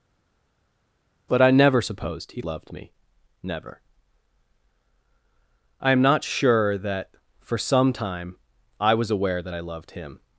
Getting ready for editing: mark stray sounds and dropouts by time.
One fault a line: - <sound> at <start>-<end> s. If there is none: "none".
none